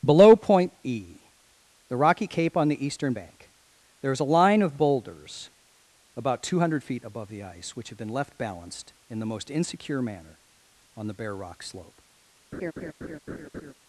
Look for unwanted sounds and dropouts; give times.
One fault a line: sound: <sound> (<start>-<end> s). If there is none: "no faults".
sound: laugh (12.5-13.7 s)